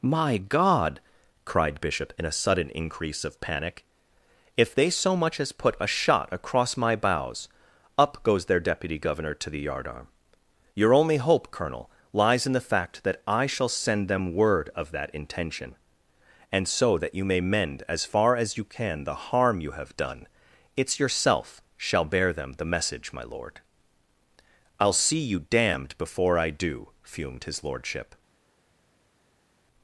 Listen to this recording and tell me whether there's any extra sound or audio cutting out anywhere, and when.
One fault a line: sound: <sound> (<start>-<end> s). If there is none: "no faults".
no faults